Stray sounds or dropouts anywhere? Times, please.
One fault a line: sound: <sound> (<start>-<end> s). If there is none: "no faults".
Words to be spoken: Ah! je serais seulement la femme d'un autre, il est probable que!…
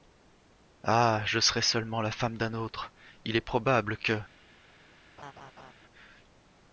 sound: laugh (5.2-5.7 s)